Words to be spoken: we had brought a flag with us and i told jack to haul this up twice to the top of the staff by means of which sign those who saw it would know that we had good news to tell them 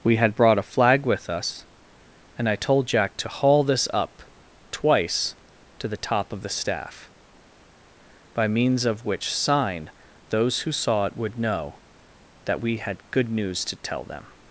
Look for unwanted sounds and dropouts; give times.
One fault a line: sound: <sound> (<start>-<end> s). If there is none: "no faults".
no faults